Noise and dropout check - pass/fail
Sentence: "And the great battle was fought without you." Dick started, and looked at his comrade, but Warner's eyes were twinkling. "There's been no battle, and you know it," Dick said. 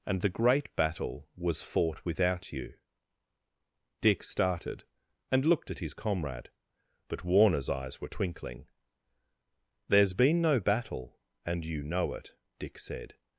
pass